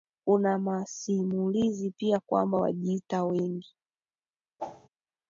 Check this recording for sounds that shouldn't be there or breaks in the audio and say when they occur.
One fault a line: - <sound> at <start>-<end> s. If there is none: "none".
- whoosh at 4.6-4.9 s